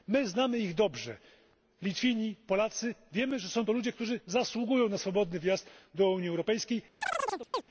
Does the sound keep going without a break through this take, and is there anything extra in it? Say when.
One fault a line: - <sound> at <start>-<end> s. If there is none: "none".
- chirp at 7.0-7.6 s